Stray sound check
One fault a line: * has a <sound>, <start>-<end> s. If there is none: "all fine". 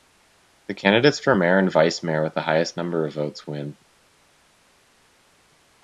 all fine